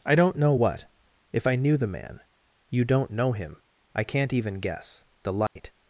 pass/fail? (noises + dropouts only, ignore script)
fail